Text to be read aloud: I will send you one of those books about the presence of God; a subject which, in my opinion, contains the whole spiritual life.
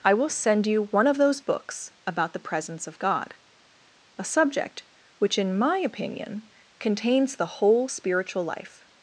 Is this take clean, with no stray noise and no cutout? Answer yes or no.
yes